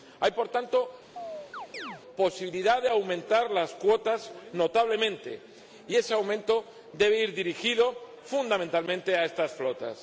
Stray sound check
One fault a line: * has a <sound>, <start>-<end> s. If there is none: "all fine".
* has a chirp, 1.2-2.0 s